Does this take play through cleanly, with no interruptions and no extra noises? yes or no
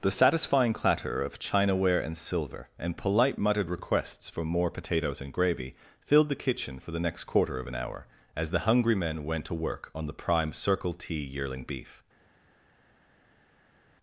yes